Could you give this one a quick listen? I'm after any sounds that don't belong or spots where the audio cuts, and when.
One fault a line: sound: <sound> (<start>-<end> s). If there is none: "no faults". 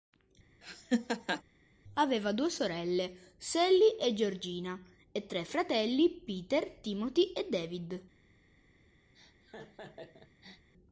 sound: laugh (0.6-1.4 s)
sound: laugh (9.1-10.7 s)